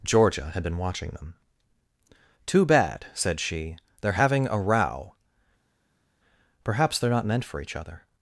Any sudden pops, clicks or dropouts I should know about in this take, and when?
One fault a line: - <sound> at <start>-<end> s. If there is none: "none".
none